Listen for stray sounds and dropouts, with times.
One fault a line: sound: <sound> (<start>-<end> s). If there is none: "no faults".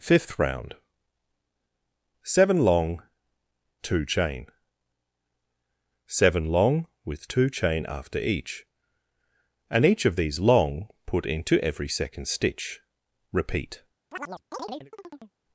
sound: chirp (14.1-15.4 s)